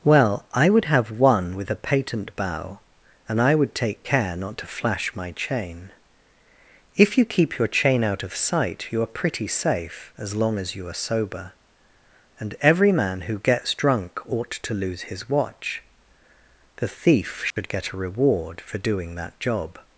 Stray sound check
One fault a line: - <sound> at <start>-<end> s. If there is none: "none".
- dropout at 17.5-17.6 s